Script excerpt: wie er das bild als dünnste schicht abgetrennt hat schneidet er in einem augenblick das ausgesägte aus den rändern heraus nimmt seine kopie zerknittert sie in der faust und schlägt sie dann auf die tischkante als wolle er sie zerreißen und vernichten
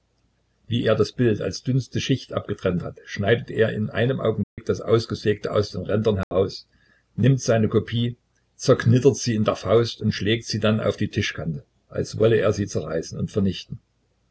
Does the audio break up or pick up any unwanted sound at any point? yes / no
yes